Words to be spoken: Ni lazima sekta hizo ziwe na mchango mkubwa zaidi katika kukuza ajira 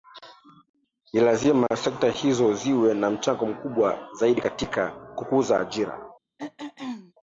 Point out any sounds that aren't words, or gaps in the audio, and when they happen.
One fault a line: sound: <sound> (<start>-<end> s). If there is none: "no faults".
sound: throat clearing (6.4-7.1 s)